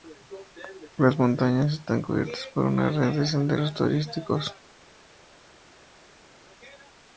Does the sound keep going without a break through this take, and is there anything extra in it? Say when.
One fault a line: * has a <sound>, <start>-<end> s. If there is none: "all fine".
all fine